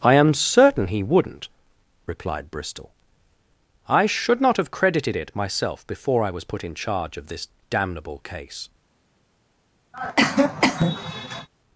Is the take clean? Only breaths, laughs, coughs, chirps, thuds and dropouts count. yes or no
no